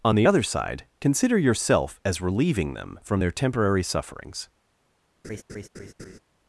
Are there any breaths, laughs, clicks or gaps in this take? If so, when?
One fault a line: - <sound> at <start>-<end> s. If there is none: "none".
- laugh at 5.2-6.2 s